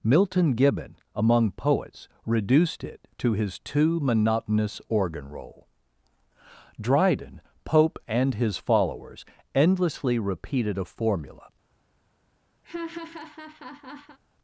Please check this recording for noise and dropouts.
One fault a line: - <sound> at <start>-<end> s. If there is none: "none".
- laugh at 12.6-14.2 s